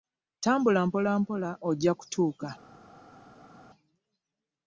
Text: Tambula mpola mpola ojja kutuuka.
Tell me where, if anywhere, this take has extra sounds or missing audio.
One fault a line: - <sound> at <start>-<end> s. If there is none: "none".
none